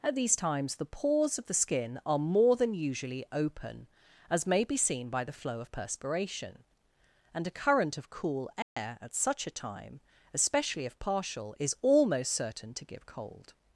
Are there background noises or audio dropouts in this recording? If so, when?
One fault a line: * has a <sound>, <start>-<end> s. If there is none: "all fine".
* has a dropout, 8.6-8.8 s